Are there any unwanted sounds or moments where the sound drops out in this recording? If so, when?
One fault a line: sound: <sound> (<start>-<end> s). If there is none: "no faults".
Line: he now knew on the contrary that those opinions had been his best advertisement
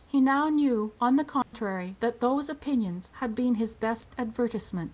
sound: dropout (1.4-1.5 s)